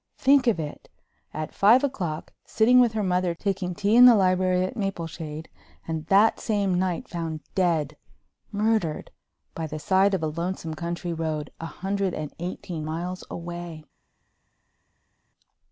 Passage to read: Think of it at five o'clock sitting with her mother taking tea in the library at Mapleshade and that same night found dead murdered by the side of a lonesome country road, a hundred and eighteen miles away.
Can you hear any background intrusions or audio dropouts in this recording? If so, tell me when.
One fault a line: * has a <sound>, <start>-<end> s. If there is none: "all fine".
all fine